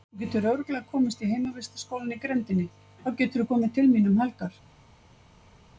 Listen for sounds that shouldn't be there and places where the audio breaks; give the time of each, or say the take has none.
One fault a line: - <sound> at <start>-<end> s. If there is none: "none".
none